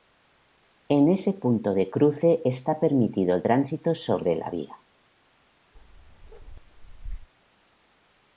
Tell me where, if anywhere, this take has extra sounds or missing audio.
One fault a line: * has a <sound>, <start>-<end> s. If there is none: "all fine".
* has a bark, 5.7-7.3 s